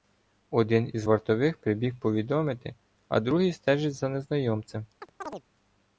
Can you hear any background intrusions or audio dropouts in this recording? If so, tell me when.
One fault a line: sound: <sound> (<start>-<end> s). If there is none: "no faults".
sound: chirp (5.0-5.4 s)